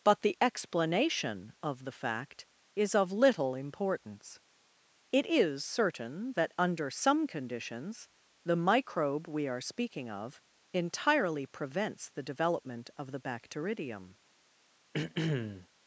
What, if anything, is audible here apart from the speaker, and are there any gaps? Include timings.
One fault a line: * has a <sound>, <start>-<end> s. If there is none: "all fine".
* has a throat clearing, 14.9-15.7 s